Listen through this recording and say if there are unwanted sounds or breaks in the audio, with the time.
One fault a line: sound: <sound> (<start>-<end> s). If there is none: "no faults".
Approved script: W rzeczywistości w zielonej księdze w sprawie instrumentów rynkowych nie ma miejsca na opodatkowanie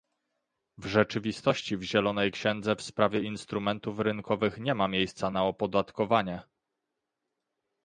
no faults